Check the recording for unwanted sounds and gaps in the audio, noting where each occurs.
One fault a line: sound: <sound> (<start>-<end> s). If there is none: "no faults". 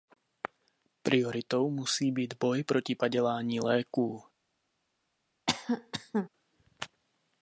sound: cough (5.5-6.3 s)